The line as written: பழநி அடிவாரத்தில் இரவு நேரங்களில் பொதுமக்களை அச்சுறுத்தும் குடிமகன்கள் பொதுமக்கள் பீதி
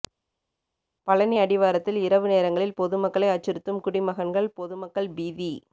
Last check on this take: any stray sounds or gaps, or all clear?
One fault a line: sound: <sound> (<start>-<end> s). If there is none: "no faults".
no faults